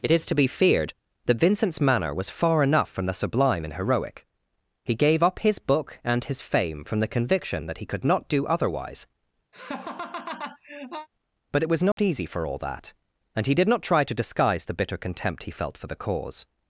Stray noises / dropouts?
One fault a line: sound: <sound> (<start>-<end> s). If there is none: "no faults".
sound: laugh (9.5-11.1 s)
sound: dropout (11.9-12.0 s)